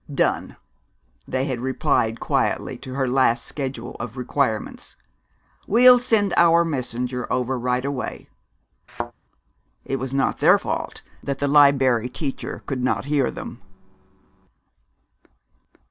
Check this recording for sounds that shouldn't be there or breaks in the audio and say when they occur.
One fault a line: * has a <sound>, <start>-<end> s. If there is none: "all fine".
* has a thud, 8.9-9.1 s